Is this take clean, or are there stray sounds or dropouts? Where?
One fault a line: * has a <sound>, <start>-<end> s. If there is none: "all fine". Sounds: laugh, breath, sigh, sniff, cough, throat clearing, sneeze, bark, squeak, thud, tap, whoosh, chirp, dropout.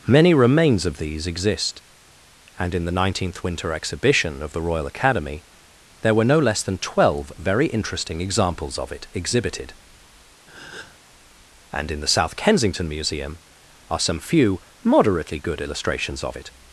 * has a breath, 10.5-11.0 s